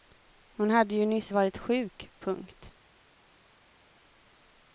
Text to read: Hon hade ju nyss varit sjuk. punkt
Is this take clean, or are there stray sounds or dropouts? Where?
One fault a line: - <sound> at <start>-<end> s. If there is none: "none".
none